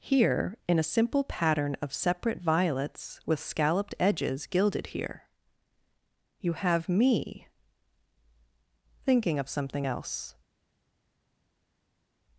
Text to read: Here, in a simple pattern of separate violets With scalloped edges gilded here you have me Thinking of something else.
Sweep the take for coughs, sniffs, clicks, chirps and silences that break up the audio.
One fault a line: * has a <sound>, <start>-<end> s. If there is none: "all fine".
all fine